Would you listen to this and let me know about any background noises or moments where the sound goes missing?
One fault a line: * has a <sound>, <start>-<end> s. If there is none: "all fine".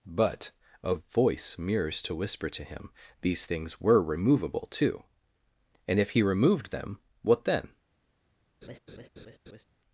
* has a laugh, 8.6-9.6 s